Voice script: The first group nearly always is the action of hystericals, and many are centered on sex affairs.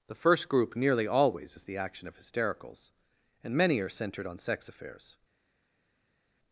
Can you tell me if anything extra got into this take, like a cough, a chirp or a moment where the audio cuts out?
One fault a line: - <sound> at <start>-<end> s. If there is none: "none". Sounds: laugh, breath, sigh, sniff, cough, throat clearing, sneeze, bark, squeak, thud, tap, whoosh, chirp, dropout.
none